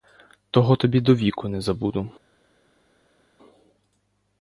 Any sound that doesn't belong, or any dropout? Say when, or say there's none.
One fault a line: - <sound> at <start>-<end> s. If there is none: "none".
none